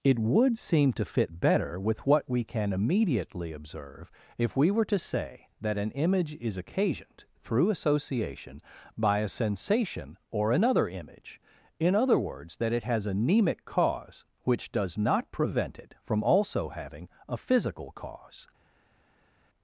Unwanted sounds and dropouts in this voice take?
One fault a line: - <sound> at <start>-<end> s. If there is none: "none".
none